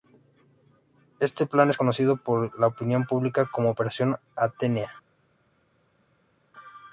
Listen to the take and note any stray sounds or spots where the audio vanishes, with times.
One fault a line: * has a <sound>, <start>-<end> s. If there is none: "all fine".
all fine